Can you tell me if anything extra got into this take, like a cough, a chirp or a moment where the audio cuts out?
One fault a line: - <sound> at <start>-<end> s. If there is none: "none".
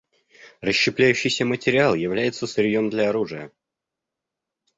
none